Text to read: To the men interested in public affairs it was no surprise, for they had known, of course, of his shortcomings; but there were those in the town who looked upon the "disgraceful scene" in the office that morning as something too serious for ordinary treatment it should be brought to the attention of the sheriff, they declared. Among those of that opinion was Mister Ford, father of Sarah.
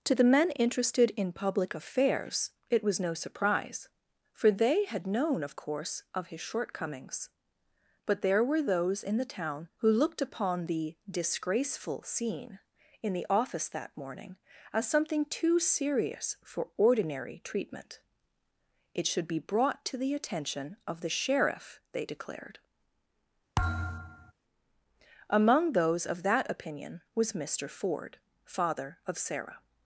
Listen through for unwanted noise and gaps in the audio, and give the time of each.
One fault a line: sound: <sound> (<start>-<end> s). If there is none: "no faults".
sound: thud (23.6-24.3 s)